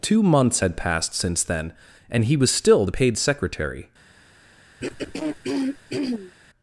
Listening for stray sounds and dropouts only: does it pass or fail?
fail